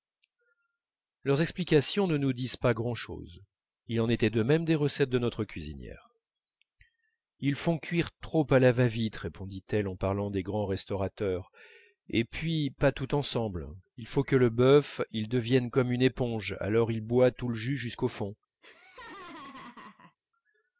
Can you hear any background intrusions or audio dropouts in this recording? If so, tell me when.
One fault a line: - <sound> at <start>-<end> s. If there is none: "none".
- laugh at 18.6-20.2 s